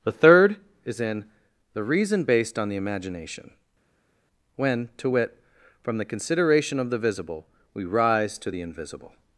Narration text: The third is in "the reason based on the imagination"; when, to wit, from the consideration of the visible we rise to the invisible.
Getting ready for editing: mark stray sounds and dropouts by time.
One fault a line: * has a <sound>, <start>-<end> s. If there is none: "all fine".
all fine